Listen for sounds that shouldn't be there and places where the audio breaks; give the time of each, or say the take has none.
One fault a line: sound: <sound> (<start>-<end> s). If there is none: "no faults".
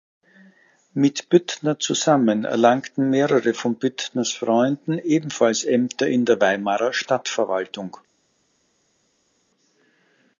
no faults